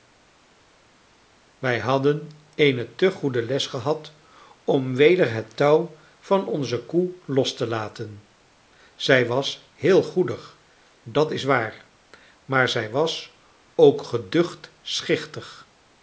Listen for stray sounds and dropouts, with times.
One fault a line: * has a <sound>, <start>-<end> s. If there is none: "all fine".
all fine